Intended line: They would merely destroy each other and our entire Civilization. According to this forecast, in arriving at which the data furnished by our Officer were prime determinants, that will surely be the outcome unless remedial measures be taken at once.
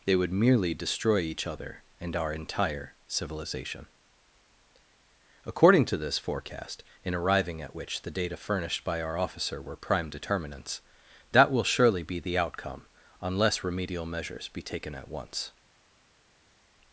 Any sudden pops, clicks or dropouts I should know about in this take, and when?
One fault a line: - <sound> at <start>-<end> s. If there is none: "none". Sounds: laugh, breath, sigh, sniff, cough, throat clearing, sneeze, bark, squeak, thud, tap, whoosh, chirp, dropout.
none